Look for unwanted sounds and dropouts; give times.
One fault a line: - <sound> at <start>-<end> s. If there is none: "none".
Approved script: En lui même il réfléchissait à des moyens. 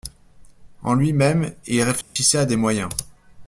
- dropout at 2.0-2.2 s